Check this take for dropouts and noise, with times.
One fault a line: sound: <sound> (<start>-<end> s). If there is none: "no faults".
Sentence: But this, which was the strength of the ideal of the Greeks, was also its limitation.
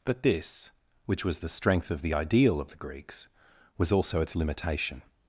no faults